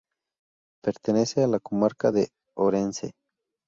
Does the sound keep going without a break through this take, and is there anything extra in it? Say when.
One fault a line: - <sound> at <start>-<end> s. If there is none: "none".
none